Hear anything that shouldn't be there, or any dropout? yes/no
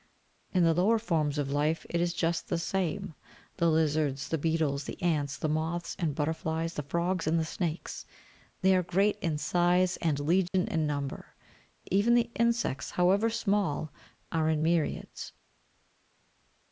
yes